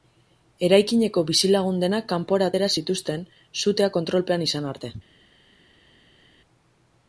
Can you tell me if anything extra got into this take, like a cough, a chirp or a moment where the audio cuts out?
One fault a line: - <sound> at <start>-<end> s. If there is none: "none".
none